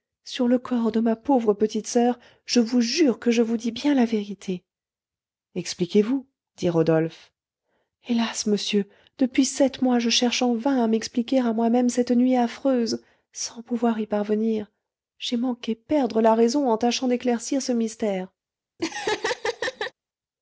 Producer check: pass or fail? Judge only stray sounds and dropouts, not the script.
fail